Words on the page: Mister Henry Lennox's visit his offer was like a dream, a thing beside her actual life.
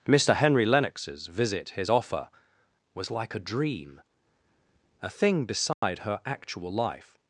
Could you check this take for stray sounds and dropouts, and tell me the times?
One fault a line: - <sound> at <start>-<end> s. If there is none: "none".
- dropout at 5.7-5.8 s